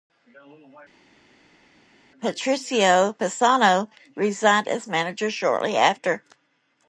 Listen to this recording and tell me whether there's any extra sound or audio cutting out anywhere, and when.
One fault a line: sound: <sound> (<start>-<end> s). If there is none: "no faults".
no faults